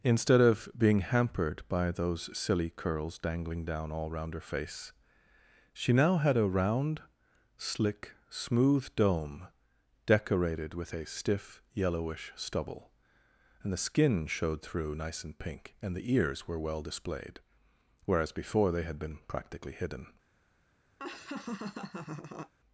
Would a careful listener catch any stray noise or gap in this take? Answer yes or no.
yes